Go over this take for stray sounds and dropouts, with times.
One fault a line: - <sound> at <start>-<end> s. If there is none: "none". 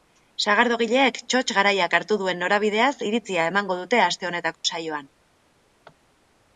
- dropout at 4.5-4.6 s